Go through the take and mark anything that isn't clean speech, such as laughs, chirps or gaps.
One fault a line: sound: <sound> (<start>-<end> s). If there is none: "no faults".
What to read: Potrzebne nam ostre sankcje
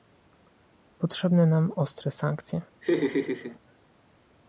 sound: laugh (2.8-3.6 s)